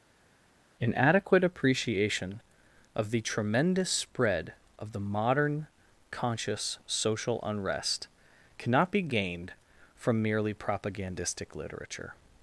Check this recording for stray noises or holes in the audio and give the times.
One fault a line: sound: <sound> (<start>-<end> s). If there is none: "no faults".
no faults